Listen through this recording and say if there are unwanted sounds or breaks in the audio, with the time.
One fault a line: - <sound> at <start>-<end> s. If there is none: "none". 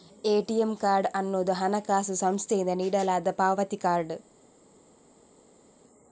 none